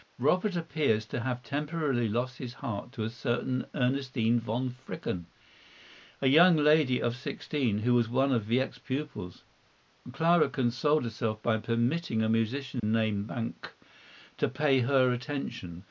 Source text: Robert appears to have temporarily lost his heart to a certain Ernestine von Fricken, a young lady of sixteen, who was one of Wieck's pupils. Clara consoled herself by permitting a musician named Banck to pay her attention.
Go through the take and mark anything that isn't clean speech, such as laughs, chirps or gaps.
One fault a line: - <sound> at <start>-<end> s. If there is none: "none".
- dropout at 12.8-12.8 s